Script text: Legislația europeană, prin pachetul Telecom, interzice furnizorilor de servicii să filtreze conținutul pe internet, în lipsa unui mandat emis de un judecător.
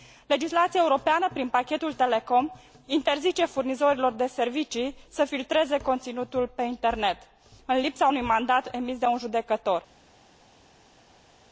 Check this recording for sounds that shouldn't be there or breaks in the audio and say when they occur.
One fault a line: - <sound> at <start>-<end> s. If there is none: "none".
none